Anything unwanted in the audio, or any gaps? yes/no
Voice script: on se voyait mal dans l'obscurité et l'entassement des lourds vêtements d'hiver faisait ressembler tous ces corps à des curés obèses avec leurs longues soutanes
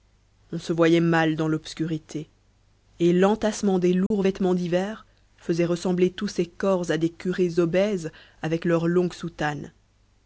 yes